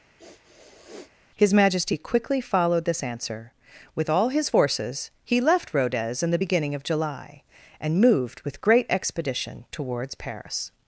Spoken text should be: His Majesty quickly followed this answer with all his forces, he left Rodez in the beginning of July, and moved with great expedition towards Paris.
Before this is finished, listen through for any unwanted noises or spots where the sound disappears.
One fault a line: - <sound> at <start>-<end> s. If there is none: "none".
- sniff at 0.2-1.1 s